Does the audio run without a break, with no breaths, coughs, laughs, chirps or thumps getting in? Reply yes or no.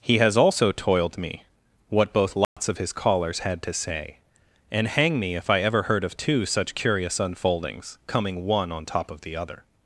no